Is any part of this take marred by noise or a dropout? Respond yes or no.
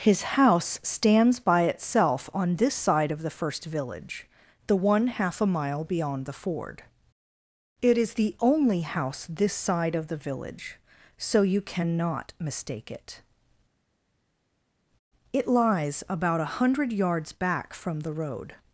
no